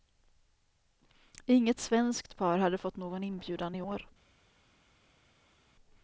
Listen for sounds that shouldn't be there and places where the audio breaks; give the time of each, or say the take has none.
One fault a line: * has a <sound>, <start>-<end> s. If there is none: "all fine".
all fine